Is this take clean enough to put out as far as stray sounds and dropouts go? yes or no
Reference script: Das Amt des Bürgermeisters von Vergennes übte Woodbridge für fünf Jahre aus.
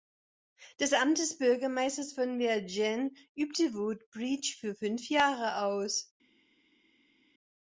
yes